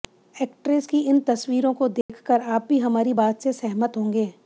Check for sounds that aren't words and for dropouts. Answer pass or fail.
fail